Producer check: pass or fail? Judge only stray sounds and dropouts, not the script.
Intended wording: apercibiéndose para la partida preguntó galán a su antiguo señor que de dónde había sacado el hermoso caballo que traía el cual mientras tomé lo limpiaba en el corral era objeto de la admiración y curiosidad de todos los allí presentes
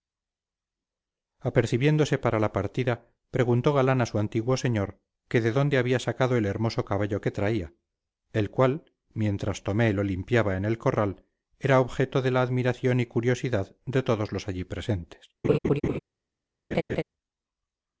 fail